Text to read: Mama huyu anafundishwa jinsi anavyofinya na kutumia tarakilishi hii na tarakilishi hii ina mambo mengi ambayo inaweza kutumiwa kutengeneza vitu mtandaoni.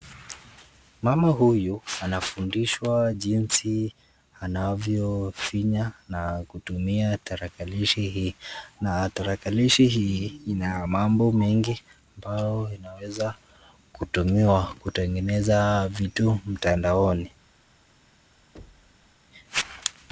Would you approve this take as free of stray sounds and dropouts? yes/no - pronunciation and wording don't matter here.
no